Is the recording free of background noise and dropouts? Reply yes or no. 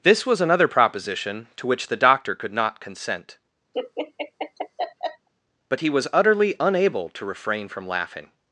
no